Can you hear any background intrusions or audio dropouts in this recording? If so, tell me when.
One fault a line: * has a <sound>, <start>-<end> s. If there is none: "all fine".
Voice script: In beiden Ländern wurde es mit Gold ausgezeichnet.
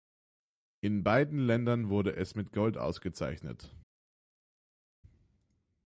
all fine